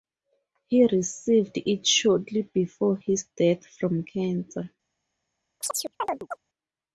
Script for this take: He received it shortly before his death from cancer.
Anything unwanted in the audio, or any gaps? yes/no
yes